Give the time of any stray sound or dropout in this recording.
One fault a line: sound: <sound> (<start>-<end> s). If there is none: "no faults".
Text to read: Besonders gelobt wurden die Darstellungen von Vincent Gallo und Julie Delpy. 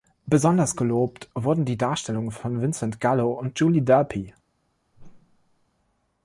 sound: whoosh (4.9-5.7 s)